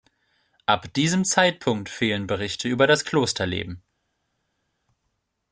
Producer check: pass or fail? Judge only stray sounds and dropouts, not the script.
pass